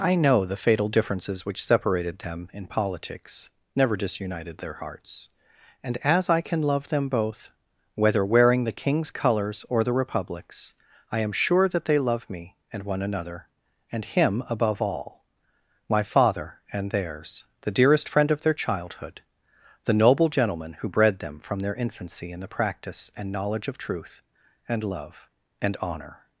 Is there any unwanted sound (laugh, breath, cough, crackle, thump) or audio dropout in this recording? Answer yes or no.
no